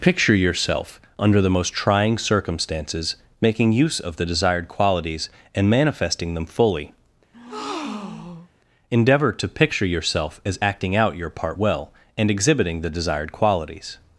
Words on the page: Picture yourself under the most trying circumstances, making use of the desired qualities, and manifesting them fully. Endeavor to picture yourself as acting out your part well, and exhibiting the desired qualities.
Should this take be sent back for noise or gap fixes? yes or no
yes